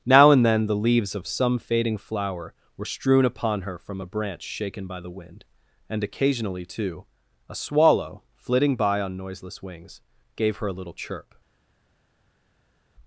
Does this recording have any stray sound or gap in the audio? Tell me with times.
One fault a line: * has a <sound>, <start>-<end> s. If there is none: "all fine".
all fine